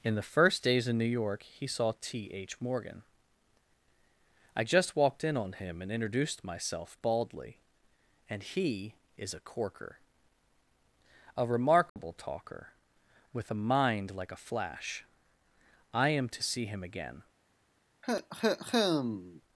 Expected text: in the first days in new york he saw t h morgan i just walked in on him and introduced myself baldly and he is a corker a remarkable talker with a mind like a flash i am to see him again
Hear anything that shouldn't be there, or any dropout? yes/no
yes